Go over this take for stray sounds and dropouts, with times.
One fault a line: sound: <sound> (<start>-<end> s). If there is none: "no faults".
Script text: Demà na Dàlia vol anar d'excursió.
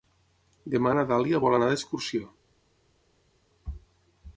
no faults